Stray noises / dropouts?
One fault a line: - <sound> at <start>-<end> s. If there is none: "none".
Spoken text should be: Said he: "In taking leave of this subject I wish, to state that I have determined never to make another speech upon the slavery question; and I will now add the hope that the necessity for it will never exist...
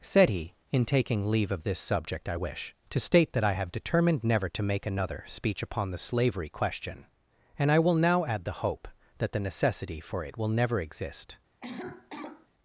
- cough at 11.6-12.5 s